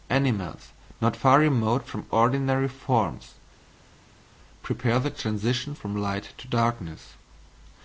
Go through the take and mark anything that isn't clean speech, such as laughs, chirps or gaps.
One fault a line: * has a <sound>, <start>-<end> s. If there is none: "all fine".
all fine